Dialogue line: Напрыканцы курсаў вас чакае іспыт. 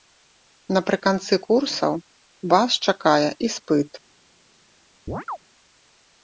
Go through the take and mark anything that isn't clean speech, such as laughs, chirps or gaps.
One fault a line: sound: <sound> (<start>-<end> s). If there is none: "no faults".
sound: chirp (5.1-5.4 s)